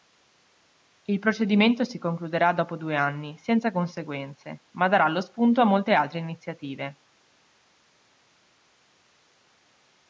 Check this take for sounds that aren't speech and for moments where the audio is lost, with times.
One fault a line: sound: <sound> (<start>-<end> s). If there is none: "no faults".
no faults